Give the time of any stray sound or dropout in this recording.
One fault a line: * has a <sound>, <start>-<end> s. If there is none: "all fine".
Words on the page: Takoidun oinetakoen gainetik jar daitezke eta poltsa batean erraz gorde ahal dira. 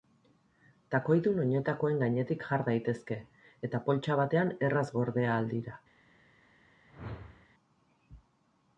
* has a whoosh, 6.9-7.5 s